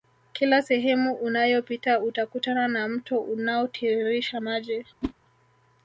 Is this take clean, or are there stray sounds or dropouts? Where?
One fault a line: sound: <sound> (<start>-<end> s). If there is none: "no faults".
sound: whoosh (5.0-5.1 s)